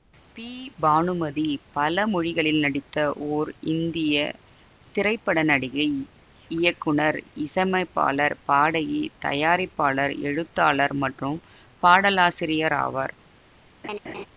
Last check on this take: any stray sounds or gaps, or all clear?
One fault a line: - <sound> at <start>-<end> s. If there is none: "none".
- laugh at 13.8-14.3 s